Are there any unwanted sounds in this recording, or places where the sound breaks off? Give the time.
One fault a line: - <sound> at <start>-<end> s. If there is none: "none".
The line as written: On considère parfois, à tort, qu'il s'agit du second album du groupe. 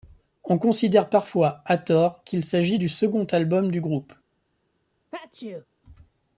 - sneeze at 5.1-5.7 s